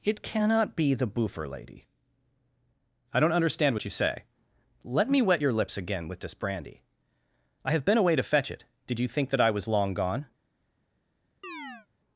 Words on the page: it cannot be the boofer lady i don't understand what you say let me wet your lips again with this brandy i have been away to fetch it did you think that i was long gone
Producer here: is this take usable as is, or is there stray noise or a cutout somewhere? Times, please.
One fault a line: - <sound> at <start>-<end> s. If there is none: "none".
- chirp at 11.4-11.9 s